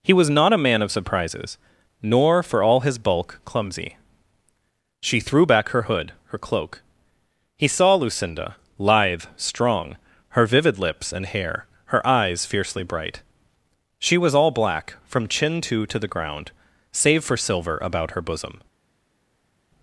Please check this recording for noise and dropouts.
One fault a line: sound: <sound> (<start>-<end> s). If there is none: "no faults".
no faults